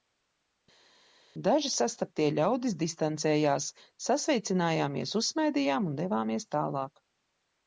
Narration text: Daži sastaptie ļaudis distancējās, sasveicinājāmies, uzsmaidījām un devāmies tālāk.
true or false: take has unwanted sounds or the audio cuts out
false